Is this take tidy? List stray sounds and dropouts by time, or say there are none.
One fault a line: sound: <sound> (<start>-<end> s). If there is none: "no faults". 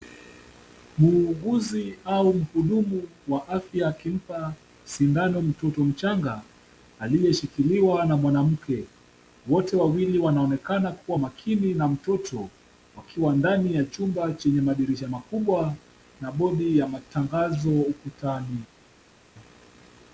no faults